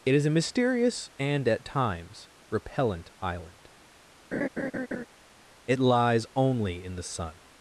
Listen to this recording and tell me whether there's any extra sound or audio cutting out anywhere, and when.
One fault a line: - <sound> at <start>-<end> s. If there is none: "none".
- laugh at 4.3-5.1 s